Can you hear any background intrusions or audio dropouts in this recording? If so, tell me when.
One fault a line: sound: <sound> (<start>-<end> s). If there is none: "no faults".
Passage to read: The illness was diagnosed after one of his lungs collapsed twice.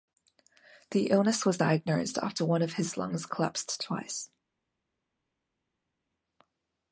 no faults